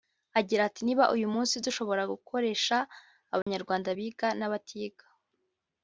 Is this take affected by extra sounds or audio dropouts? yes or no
yes